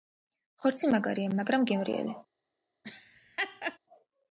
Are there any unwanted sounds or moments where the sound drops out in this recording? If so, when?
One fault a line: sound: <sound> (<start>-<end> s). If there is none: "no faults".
sound: laugh (2.8-3.8 s)